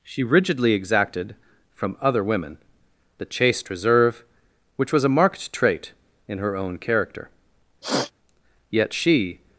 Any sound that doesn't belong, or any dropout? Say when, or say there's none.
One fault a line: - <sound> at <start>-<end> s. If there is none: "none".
- sniff at 7.8-8.1 s